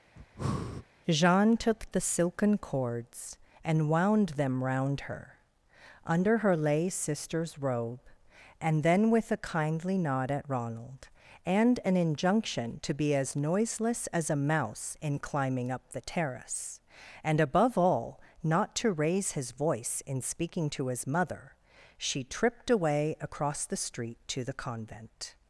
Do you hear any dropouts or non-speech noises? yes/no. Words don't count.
yes